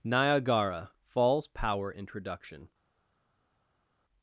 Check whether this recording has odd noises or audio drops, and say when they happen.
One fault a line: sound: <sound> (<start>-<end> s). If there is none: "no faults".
no faults